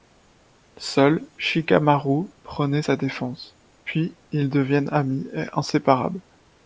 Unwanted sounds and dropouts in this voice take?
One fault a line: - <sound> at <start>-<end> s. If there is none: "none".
none